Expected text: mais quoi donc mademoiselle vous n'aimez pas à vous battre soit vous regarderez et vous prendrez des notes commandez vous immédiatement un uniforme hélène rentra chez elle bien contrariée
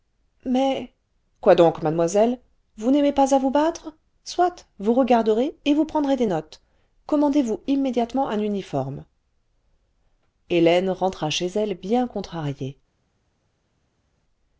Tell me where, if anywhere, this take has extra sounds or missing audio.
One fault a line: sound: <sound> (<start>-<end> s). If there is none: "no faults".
no faults